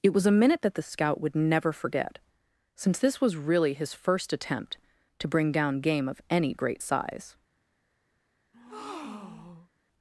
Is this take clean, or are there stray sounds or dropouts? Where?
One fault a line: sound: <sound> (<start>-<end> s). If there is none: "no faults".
sound: breath (8.5-9.7 s)